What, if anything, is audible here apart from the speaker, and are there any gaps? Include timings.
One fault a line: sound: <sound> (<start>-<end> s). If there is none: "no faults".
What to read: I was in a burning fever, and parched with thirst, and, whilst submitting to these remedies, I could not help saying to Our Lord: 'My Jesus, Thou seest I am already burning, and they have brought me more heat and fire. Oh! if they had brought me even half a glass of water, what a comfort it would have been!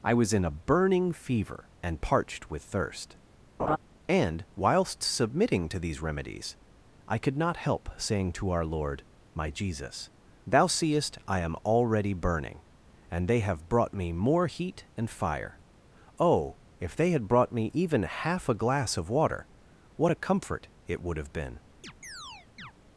sound: laugh (3.6-3.8 s)
sound: chirp (21.8-22.7 s)